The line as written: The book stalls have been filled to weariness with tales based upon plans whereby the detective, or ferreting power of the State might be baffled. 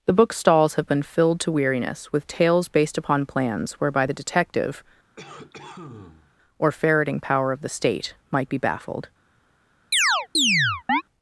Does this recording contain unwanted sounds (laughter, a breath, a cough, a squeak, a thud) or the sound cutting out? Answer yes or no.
yes